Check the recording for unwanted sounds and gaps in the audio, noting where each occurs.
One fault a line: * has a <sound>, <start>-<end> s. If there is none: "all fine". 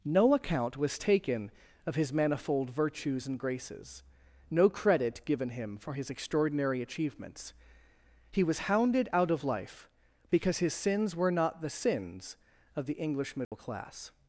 * has a dropout, 13.4-13.5 s